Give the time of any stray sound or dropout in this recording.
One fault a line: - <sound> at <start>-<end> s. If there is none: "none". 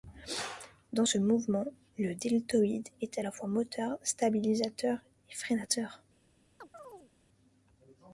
- chirp at 6.6-7.1 s